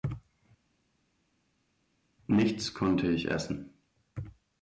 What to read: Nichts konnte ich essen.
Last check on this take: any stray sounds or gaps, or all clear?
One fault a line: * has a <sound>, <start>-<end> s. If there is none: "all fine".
all fine